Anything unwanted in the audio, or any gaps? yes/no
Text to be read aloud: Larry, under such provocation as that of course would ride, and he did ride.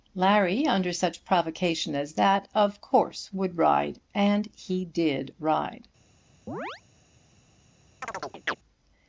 yes